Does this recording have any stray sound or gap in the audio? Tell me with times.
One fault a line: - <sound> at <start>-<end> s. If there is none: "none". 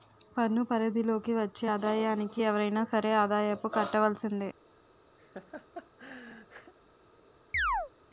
- laugh at 5.2-6.7 s
- chirp at 7.5-7.9 s